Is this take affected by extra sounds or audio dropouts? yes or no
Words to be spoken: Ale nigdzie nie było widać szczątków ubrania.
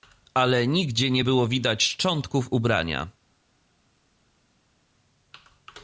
no